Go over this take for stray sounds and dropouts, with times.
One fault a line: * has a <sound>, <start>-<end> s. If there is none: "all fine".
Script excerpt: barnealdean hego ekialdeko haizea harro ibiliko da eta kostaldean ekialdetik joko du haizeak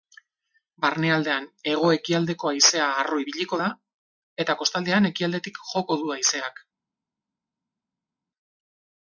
all fine